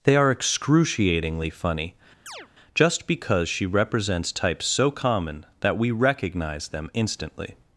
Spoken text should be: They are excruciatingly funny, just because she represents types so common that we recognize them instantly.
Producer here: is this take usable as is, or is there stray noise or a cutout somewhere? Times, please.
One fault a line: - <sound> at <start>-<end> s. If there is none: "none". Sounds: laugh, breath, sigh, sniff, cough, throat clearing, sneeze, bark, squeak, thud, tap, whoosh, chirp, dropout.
- chirp at 2.3-2.5 s